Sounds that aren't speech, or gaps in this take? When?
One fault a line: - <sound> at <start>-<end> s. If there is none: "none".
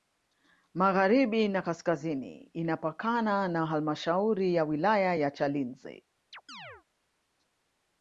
- chirp at 6.3-6.8 s